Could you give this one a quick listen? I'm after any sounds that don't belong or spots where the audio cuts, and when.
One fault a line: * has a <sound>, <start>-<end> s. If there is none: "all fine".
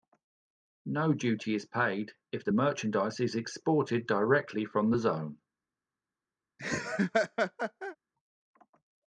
* has a laugh, 6.6-8.0 s